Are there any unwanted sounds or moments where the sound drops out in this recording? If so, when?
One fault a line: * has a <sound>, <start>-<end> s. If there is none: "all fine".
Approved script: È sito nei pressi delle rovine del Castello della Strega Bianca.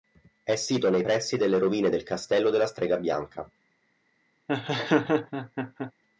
* has a laugh, 4.5-5.9 s